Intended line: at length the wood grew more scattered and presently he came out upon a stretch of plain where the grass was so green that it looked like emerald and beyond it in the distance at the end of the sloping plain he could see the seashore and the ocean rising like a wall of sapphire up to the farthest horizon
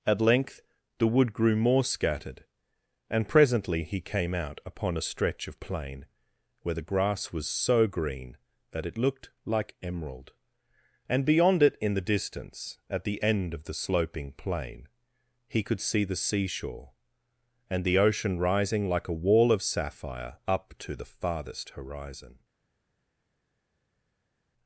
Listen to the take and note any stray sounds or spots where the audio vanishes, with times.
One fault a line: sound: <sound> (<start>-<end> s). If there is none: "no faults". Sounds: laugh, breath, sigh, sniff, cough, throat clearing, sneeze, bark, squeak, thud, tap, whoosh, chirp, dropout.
no faults